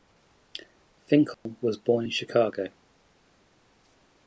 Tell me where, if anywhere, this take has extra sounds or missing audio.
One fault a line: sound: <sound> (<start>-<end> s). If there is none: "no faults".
sound: dropout (1.3-1.5 s)